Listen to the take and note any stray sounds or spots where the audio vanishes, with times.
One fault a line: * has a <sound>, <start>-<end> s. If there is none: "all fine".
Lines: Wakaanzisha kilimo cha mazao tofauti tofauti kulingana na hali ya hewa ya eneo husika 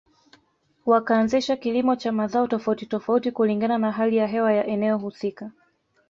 all fine